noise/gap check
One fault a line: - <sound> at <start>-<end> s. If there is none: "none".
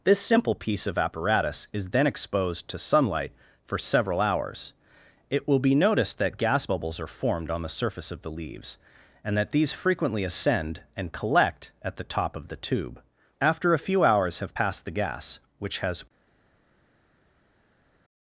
none